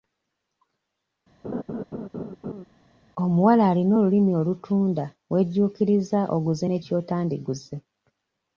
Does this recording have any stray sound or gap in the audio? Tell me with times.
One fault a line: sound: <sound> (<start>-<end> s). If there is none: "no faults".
sound: laugh (1.4-2.6 s)